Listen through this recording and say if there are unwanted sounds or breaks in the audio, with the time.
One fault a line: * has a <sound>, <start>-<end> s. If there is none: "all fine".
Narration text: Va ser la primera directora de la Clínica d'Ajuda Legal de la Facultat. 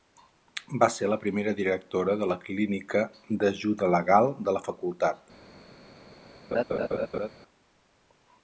* has a laugh, 6.5-7.3 s